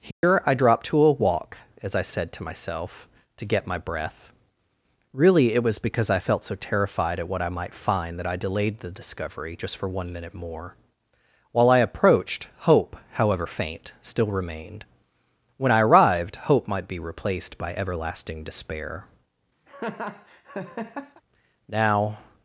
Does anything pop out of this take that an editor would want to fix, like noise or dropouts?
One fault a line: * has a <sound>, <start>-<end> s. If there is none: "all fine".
* has a dropout, 0.1-0.2 s
* has a laugh, 19.7-21.2 s